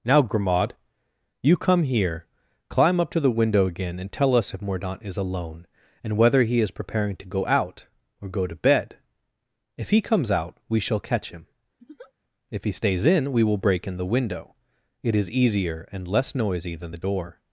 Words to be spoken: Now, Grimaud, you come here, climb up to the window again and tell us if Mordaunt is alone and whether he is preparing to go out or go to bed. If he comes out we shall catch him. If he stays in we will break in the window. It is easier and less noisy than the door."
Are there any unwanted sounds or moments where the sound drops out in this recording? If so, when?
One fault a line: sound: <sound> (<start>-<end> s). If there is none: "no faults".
sound: laugh (11.8-12.1 s)